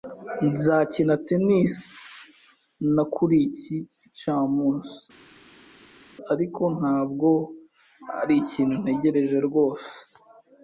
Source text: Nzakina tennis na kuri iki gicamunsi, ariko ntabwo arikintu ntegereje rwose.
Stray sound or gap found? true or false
false